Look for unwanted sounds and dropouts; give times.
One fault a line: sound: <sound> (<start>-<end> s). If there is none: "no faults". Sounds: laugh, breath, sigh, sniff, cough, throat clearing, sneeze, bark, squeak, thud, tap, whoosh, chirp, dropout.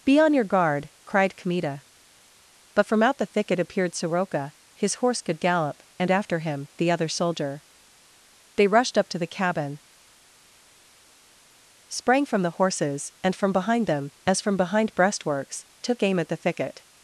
no faults